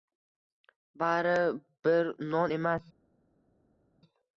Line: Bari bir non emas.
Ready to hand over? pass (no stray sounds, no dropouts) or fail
pass